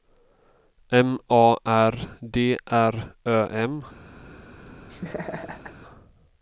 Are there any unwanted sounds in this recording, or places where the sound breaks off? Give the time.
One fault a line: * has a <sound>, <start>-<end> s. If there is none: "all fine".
* has a laugh, 4.9-5.7 s